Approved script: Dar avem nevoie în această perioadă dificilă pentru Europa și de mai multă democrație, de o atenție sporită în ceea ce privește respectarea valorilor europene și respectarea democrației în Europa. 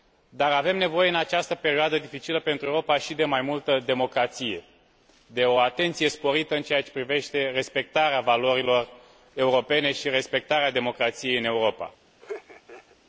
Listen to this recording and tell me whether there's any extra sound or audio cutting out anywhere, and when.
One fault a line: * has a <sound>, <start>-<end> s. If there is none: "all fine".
* has a laugh, 12.2-13.0 s